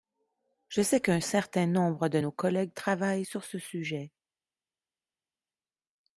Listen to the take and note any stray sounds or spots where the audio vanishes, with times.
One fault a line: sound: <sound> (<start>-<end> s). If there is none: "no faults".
no faults